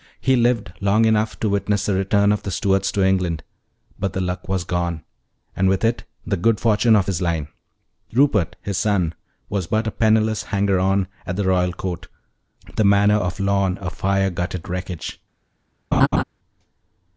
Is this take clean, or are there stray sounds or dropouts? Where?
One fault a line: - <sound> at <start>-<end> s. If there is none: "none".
- laugh at 15.9-16.2 s